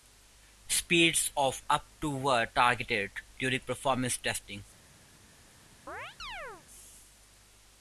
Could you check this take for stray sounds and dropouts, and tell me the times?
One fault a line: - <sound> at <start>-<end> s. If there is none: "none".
- chirp at 5.9-6.6 s